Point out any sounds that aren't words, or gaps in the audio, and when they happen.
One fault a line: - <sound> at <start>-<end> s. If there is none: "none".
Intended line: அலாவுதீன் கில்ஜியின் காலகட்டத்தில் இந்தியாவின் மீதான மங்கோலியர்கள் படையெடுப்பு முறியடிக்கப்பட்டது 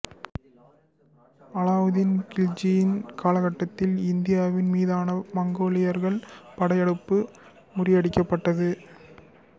none